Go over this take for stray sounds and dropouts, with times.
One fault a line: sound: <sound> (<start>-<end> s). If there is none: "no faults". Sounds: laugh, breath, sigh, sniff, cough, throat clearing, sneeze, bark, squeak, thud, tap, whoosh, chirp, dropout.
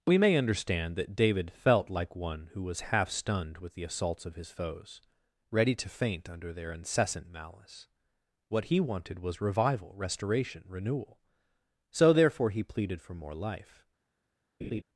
sound: laugh (14.6-14.8 s)